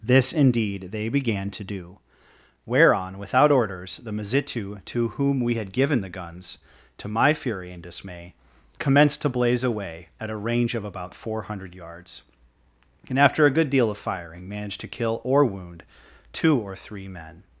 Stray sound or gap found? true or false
false